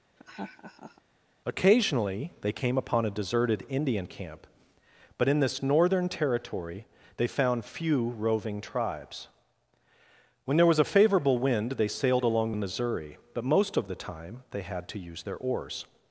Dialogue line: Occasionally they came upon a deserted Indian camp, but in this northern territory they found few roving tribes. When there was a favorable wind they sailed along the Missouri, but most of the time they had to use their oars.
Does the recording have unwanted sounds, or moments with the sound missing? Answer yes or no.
yes